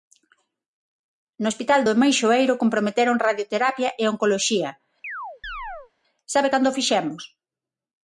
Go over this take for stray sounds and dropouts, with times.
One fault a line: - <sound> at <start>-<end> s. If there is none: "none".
- chirp at 5.0-5.9 s